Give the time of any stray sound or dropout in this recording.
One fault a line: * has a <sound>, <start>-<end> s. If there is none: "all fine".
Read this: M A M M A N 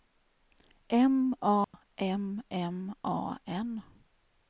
* has a dropout, 1.6-1.7 s